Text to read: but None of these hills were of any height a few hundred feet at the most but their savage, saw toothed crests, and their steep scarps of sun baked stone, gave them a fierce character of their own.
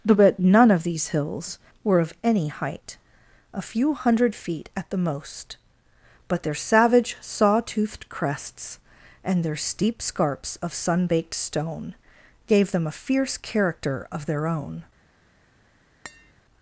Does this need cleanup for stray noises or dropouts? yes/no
yes